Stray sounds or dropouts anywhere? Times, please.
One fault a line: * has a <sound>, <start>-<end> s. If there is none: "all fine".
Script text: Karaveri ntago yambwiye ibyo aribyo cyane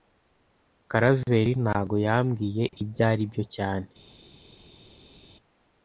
all fine